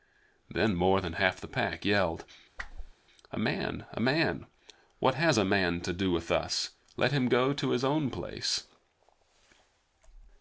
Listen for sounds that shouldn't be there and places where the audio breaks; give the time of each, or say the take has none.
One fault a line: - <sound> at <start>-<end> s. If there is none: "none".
- whoosh at 2.6-2.9 s